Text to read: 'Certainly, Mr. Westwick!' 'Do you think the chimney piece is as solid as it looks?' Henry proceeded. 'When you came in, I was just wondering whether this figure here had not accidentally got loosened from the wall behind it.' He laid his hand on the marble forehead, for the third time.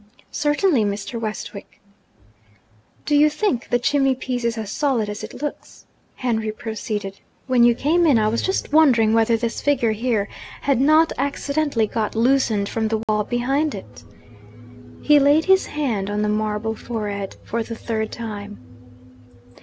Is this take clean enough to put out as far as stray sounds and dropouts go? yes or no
no